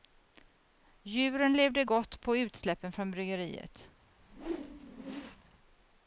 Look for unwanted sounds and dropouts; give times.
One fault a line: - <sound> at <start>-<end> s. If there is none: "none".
- whoosh at 4.2-5.6 s